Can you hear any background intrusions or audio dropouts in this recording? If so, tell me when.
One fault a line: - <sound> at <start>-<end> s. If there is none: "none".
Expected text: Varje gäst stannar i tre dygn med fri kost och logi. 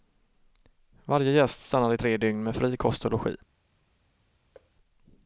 - thud at 4.5-4.7 s